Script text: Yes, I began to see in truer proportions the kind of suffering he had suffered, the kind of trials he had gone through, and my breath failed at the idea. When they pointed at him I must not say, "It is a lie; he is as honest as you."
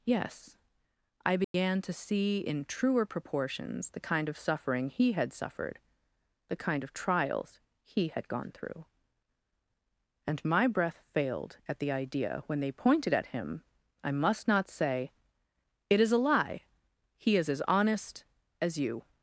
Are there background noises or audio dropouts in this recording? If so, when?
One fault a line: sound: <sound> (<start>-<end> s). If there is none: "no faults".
sound: dropout (1.4-1.5 s)